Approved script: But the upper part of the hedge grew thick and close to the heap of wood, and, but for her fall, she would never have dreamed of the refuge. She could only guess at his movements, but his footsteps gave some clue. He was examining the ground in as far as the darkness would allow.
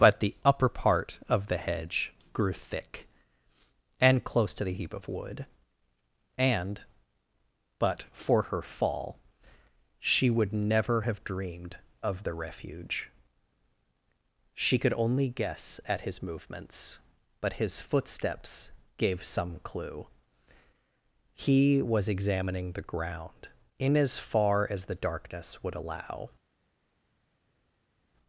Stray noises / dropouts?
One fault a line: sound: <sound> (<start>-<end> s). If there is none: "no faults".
no faults